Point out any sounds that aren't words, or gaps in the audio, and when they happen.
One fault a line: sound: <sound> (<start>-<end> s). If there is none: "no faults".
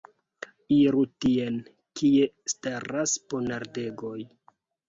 no faults